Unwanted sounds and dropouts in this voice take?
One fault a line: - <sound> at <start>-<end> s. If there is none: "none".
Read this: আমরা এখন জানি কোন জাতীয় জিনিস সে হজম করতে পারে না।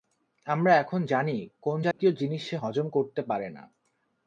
- dropout at 1.9-2.0 s